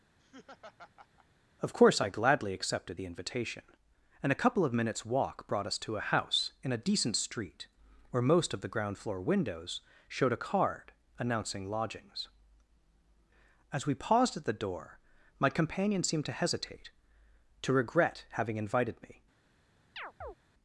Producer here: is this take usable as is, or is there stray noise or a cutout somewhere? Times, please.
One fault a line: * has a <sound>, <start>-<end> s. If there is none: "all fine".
* has a laugh, 0.2-1.3 s
* has a chirp, 20.0-20.4 s